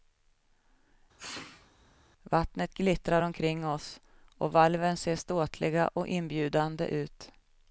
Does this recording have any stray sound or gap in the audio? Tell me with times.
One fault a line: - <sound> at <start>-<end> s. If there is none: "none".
- sneeze at 1.2-1.7 s